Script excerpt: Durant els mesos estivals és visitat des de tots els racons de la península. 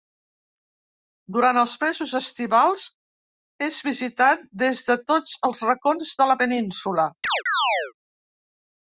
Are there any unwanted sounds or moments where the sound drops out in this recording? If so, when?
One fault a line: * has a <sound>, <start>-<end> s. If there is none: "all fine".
* has a chirp, 7.2-7.9 s